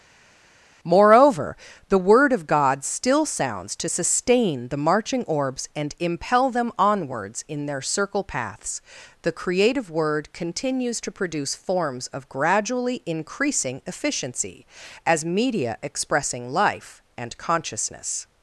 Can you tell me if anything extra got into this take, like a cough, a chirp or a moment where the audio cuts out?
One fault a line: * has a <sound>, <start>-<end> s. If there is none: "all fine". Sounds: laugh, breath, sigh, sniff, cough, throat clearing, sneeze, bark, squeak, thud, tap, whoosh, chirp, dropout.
all fine